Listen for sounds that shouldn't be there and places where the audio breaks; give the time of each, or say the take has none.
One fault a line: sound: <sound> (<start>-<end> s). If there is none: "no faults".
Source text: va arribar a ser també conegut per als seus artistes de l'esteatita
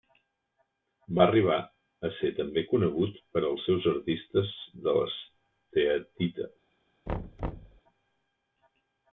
sound: thud (7.1-7.8 s)